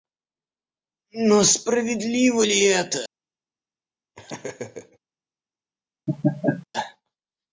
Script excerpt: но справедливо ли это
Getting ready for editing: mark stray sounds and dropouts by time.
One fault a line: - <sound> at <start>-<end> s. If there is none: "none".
- laugh at 4.1-5.0 s
- laugh at 6.1-6.7 s